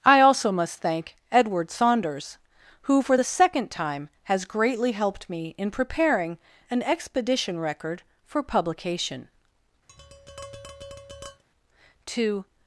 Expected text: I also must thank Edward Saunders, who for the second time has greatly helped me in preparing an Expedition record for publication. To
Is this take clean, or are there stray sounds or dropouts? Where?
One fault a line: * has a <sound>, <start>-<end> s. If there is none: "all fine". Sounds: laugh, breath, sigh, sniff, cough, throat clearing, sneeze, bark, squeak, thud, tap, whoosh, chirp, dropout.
* has a tap, 9.9-11.4 s